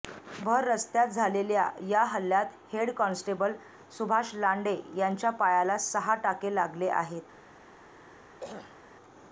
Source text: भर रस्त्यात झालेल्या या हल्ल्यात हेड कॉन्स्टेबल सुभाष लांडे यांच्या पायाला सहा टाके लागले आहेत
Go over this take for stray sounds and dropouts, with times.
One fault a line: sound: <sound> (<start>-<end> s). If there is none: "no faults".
sound: throat clearing (8.4-8.8 s)